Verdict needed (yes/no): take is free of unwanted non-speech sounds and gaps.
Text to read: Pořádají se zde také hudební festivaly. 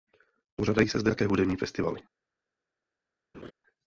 no